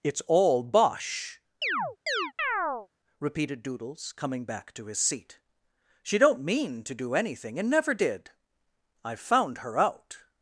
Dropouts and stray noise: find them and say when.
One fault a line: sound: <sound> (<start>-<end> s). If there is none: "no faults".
sound: chirp (1.6-2.9 s)